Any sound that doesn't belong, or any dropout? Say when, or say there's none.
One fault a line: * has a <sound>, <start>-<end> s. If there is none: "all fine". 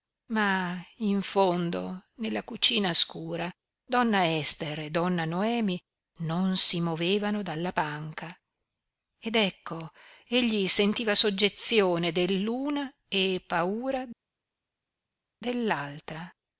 all fine